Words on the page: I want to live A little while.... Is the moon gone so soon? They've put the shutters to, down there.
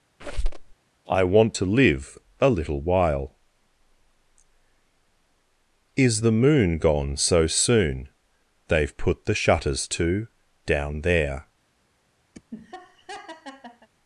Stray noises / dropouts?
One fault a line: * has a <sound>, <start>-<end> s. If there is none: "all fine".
* has a squeak, 0.2-0.7 s
* has a laugh, 12.3-13.9 s